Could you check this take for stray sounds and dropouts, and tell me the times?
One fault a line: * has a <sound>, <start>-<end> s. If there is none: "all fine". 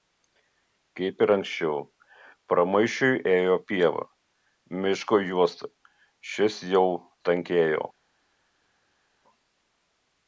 all fine